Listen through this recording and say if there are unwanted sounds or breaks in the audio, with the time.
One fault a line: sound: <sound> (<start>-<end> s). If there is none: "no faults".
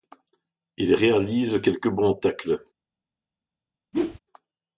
sound: whoosh (3.9-4.2 s)